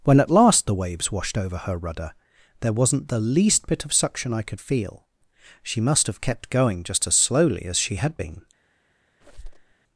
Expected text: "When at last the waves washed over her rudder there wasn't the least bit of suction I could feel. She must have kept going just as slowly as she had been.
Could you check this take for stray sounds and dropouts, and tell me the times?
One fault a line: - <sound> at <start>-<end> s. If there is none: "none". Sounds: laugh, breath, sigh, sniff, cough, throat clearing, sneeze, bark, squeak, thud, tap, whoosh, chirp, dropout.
- squeak at 9.2-9.7 s